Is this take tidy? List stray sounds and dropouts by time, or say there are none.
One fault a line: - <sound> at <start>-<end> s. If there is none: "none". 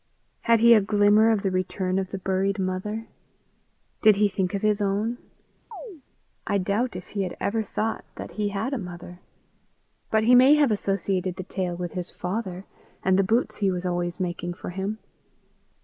- chirp at 5.7-6.0 s